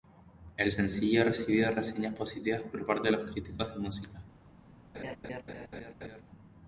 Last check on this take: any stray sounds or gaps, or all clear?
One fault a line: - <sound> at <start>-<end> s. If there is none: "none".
- laugh at 4.9-6.2 s